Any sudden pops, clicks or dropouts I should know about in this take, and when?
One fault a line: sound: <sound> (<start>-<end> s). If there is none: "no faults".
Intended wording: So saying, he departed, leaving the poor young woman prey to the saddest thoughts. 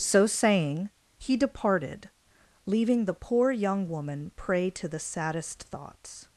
no faults